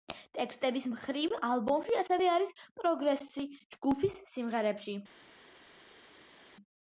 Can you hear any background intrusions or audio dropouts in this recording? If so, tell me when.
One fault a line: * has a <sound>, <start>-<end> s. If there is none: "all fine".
all fine